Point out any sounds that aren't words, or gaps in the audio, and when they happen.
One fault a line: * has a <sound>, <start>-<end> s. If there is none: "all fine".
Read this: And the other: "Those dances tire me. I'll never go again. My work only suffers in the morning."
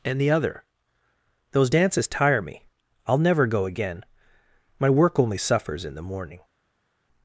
all fine